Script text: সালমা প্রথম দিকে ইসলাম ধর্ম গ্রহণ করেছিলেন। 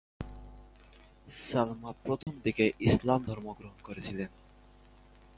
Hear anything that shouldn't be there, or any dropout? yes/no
yes